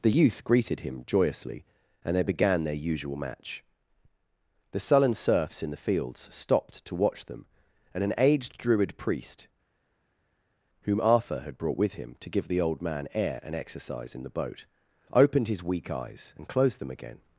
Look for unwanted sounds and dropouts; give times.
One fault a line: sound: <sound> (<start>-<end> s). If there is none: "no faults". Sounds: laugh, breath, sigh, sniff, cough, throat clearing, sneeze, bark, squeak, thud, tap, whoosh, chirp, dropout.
no faults